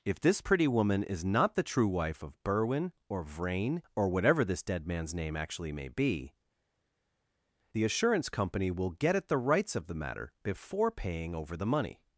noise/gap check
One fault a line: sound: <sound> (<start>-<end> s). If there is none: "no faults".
no faults